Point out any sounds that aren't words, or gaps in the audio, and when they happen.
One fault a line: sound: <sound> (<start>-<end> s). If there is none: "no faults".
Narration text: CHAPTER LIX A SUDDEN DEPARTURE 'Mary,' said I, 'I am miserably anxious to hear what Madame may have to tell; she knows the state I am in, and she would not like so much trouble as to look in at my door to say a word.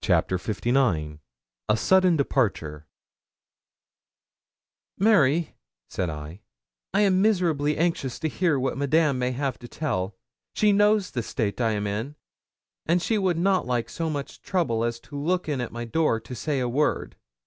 no faults